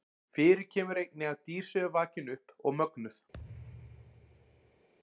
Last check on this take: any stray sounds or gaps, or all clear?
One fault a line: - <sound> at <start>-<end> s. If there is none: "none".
- thud at 3.3-4.9 s